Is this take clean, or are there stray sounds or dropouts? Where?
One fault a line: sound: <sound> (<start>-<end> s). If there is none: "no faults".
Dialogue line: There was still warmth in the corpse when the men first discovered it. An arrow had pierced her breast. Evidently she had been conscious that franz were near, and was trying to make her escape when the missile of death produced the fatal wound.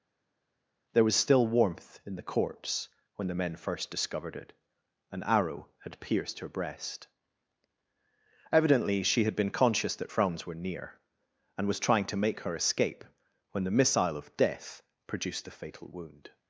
no faults